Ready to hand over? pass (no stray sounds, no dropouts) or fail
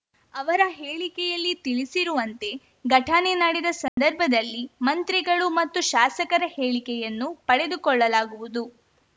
fail